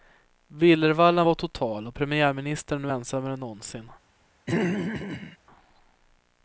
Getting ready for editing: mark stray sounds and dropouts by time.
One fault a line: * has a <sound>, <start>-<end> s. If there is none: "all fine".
* has a throat clearing, 4.5-5.4 s